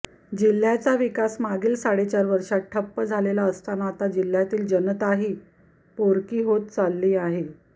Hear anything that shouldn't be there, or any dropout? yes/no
no